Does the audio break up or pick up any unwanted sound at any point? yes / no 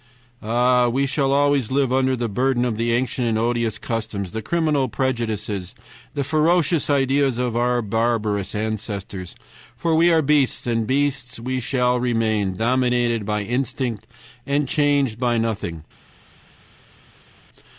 no